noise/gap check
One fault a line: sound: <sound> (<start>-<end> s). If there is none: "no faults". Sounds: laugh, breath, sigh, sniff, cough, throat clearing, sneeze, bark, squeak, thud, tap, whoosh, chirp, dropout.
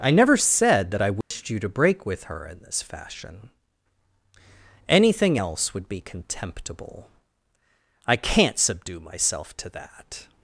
sound: dropout (1.2-1.3 s)